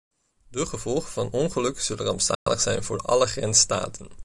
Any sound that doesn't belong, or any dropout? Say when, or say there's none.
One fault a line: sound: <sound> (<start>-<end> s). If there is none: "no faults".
sound: dropout (2.3-2.5 s)